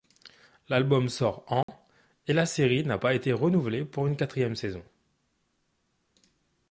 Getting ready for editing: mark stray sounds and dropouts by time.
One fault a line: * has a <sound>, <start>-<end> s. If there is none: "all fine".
* has a dropout, 1.6-1.7 s